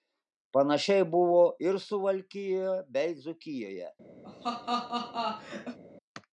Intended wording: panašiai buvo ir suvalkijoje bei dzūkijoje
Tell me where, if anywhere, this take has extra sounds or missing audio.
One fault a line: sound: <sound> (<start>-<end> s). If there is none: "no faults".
sound: laugh (4.2-5.8 s)